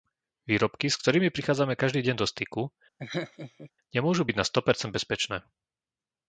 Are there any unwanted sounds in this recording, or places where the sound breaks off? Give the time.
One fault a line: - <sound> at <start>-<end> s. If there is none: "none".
- laugh at 3.0-3.7 s